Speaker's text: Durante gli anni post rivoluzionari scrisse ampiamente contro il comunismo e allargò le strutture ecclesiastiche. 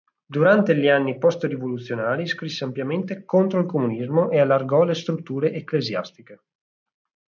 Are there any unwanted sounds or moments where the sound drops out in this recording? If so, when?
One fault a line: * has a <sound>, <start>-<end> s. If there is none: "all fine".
all fine